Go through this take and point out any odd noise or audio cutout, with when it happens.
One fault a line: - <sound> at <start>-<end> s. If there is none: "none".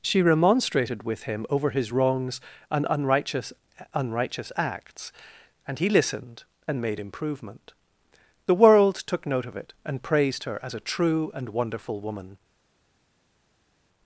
none